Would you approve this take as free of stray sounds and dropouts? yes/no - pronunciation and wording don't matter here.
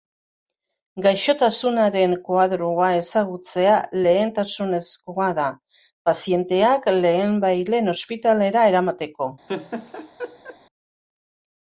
no